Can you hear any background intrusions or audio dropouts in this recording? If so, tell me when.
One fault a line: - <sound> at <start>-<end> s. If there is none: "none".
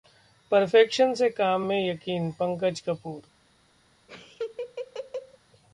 - laugh at 4.1-5.4 s